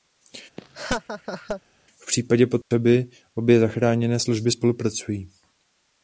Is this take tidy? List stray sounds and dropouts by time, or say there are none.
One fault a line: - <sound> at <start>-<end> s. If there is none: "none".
- laugh at 0.6-1.6 s
- dropout at 2.6-2.7 s